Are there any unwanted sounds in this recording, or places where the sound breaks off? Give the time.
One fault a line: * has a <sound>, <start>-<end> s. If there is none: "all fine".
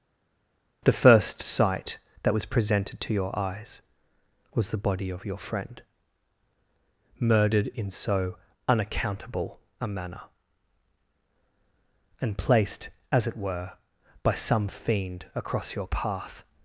all fine